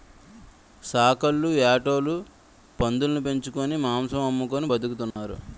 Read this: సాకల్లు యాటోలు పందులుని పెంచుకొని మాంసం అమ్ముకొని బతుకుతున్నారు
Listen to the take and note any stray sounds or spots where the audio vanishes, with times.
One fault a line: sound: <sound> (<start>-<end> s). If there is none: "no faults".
sound: dropout (5.1-5.2 s)